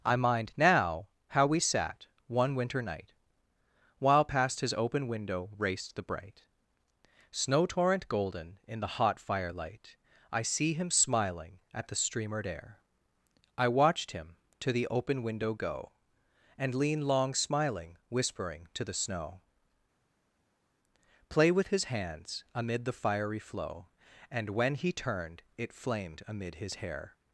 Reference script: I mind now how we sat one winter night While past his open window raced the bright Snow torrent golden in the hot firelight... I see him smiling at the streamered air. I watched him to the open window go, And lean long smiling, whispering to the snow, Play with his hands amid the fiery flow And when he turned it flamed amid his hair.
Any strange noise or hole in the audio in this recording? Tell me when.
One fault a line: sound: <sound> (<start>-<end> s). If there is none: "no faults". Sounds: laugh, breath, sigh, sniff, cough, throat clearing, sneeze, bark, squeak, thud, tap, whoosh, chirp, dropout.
no faults